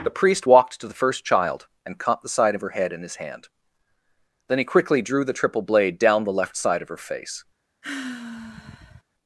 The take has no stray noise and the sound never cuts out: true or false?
false